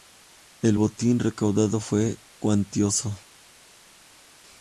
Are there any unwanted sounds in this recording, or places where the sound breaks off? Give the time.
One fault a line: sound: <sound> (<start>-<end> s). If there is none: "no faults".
no faults